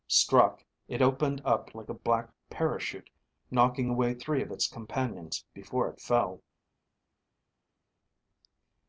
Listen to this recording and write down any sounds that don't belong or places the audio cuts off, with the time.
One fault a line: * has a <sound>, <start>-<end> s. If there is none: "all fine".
all fine